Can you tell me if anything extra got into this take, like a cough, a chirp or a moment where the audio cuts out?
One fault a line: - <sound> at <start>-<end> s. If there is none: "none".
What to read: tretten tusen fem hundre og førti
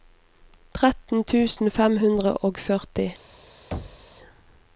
- thud at 3.7-4.1 s